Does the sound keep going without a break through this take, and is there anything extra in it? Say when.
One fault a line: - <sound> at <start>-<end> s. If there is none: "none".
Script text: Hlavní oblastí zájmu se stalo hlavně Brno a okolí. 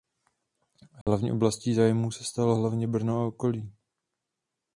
- dropout at 1.0-1.1 s